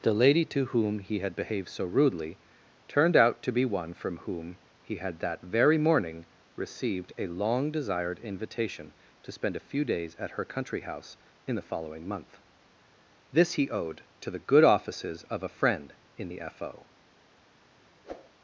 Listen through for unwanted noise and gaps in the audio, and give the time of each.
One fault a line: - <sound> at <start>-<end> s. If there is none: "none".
- whoosh at 18.0-18.3 s